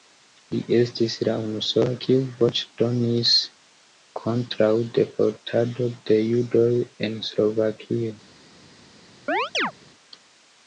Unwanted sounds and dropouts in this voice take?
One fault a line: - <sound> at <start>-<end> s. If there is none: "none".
- chirp at 9.3-9.7 s